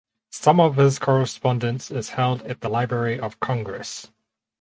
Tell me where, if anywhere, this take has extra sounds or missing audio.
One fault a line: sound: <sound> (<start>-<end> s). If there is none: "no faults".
no faults